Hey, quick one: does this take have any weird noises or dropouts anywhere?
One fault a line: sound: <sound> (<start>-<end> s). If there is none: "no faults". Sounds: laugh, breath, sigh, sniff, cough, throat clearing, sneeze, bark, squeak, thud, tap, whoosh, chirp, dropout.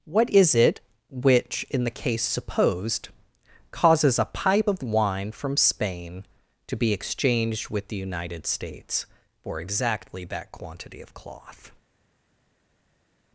no faults